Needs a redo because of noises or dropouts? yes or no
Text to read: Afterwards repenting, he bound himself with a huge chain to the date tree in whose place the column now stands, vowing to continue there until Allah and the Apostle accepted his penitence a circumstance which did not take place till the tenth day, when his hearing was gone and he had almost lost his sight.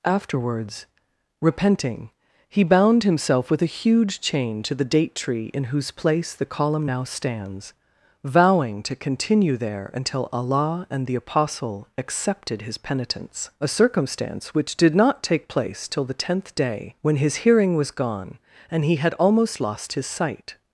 no